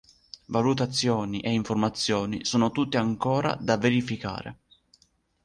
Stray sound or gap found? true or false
false